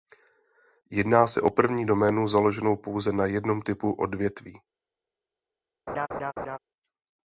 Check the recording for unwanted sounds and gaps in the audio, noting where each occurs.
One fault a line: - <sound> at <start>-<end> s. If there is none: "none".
- laugh at 5.9-6.6 s